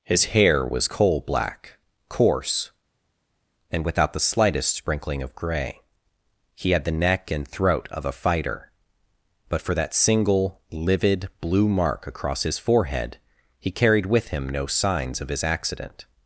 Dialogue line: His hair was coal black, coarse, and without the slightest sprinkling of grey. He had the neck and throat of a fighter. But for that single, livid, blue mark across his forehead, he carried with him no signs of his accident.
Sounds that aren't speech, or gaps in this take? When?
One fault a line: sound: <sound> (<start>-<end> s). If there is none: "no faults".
no faults